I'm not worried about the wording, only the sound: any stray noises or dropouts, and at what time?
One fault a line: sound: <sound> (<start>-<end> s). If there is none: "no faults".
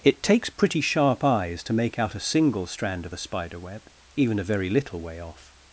no faults